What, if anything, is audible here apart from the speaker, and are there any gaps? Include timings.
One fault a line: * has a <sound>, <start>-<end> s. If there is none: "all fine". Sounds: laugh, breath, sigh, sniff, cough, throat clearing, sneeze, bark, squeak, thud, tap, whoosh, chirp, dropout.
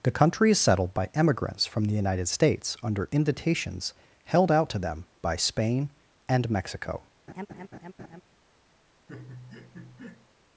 * has a laugh, 7.3-8.2 s
* has a laugh, 9.1-10.3 s